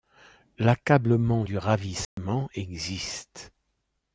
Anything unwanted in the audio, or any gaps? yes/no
yes